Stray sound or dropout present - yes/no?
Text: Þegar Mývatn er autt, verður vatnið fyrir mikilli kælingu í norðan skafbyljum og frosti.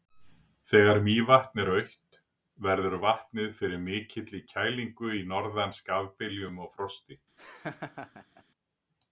yes